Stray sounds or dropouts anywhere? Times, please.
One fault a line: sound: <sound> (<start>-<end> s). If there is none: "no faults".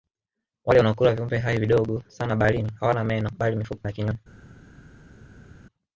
no faults